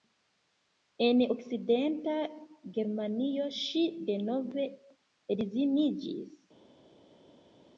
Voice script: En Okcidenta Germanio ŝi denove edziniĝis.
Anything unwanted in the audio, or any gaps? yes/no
no